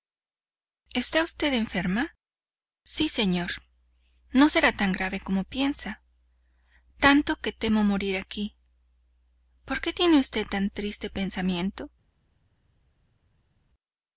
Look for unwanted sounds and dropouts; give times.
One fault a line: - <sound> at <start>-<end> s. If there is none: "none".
none